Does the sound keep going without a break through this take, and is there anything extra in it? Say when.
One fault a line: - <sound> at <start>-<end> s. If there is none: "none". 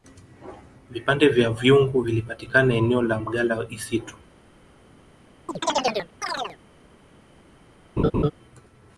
- chirp at 5.5-6.6 s
- laugh at 8.0-8.3 s